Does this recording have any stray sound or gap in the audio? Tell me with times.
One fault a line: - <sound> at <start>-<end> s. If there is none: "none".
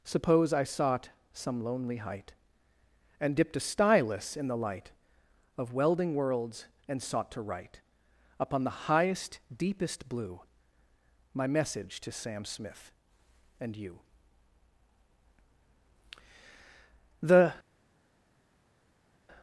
none